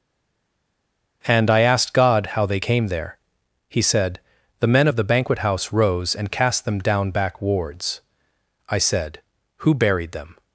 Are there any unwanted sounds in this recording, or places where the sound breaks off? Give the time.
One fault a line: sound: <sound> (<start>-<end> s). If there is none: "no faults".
no faults